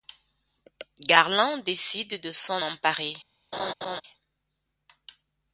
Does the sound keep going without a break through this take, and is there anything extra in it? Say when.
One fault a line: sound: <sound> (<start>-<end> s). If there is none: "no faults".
sound: laugh (3.5-4.0 s)